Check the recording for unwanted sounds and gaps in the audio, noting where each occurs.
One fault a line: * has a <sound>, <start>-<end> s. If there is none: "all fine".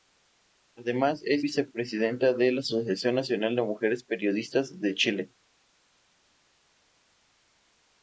all fine